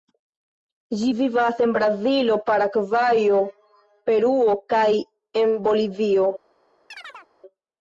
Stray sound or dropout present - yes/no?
yes